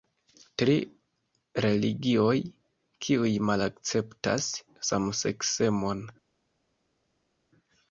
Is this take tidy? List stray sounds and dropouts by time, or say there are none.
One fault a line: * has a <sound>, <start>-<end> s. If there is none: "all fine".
all fine